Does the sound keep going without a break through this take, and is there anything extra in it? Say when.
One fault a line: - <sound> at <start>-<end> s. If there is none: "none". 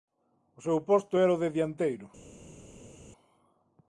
none